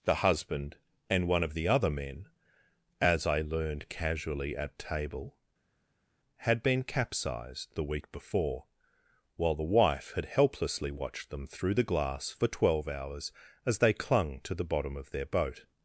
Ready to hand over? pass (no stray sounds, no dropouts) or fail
pass